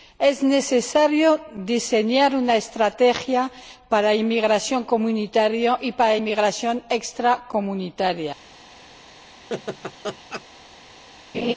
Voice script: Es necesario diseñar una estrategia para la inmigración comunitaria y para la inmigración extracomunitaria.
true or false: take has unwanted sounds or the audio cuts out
true